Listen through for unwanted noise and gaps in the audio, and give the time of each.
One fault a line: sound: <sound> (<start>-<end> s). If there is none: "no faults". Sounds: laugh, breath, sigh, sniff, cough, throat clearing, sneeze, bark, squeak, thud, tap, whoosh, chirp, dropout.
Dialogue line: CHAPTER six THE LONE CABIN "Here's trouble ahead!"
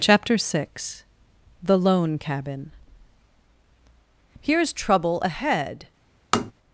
sound: tap (6.3-6.5 s)